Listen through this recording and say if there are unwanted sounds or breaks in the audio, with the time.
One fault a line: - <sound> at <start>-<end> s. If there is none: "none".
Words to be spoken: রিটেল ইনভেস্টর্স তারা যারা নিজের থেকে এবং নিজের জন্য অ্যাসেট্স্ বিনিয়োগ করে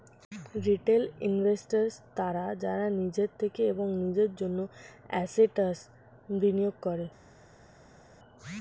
none